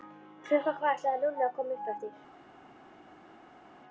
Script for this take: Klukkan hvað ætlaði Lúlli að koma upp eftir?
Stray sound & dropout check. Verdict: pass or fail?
pass